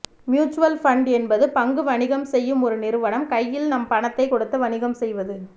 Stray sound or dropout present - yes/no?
no